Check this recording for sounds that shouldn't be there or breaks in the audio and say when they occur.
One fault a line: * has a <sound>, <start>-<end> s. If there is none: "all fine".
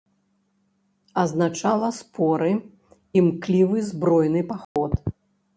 * has a dropout, 4.6-4.8 s